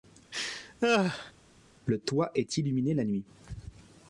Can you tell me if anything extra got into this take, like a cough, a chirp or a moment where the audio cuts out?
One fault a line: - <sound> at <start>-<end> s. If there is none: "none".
- laugh at 0.3-1.3 s